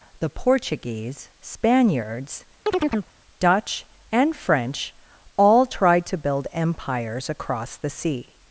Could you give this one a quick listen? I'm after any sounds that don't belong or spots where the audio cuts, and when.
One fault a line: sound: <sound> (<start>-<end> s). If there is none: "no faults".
sound: chirp (2.7-3.1 s)